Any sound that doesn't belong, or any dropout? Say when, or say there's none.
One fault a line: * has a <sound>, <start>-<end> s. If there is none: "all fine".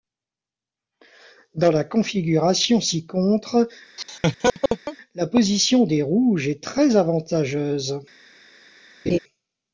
* has a laugh, 4.0-5.0 s
* has a laugh, 9.1-9.2 s